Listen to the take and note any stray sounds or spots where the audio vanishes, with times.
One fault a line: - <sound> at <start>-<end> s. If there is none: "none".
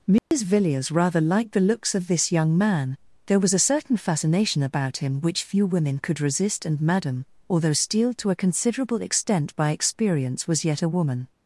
- dropout at 0.2-0.3 s